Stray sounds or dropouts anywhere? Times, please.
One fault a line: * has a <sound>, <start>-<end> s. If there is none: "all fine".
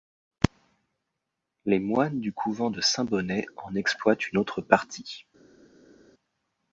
all fine